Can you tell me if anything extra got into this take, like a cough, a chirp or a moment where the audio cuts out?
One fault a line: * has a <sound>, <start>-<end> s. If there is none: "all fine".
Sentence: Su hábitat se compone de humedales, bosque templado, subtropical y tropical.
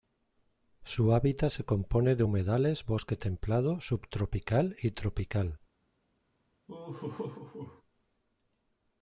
* has a laugh, 6.7-7.8 s